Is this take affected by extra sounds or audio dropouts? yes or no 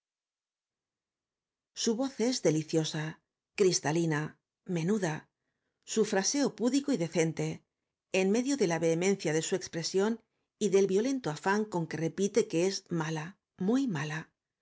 no